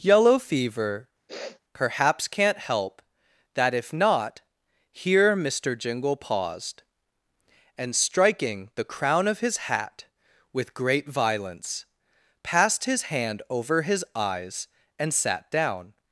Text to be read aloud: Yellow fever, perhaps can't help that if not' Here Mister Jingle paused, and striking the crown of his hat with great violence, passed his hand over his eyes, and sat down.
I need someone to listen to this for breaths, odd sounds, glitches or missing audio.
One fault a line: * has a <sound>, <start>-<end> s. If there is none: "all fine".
* has a sniff, 1.3-1.6 s